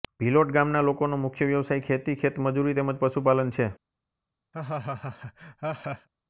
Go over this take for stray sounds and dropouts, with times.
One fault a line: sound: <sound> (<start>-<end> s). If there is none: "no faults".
sound: laugh (4.5-6.1 s)